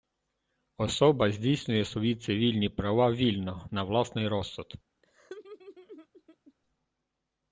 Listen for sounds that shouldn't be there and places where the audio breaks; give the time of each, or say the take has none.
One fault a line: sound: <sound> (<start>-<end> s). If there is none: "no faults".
sound: laugh (5.0-6.5 s)